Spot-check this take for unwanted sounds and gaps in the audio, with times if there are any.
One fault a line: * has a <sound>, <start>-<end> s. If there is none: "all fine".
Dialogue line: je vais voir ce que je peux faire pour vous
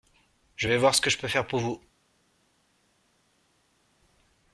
all fine